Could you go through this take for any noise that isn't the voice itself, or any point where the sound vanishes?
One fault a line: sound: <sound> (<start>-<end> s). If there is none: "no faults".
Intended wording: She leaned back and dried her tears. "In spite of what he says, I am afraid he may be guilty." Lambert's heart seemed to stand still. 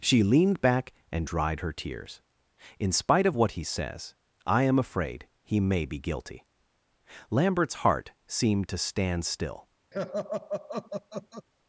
sound: laugh (9.9-11.5 s)